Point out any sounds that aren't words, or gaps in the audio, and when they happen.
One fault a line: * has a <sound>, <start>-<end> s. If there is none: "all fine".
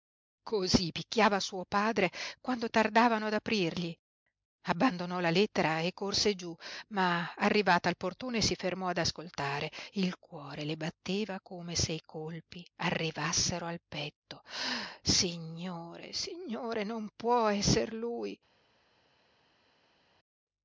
all fine